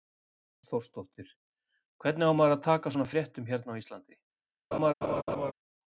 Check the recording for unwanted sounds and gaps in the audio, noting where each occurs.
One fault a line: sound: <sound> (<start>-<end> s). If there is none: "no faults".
sound: laugh (4.7-5.5 s)